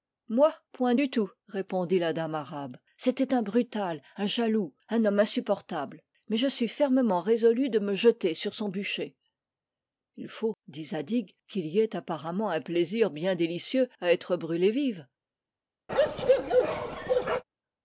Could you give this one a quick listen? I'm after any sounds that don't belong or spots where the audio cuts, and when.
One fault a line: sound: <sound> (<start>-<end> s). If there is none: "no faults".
sound: bark (15.9-17.4 s)